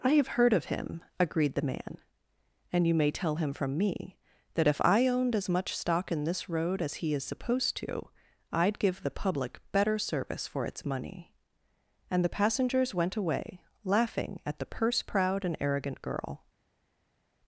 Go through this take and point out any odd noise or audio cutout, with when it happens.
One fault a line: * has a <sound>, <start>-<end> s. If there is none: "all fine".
all fine